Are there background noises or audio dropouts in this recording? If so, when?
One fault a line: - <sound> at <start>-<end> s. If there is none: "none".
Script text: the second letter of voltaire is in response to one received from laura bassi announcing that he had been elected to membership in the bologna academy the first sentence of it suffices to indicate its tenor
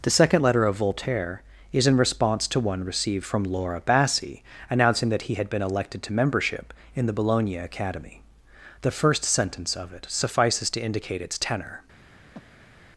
- breath at 12.3-12.9 s